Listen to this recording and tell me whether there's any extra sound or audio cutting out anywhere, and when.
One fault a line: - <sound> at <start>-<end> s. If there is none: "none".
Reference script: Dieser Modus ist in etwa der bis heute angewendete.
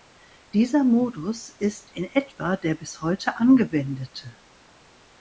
none